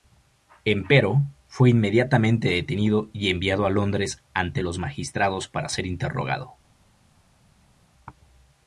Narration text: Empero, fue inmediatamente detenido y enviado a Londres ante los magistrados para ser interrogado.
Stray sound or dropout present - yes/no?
no